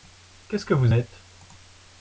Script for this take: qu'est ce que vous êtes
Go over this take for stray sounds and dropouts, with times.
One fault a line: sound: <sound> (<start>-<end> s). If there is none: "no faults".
no faults